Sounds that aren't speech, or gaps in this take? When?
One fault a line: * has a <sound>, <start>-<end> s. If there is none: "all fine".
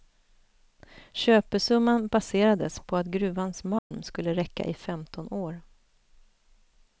* has a dropout, 3.8-3.9 s